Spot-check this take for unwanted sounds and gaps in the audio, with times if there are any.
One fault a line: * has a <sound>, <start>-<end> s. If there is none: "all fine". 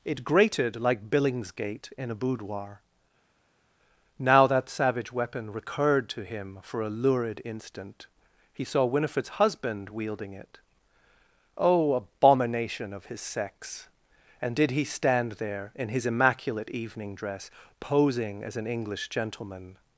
all fine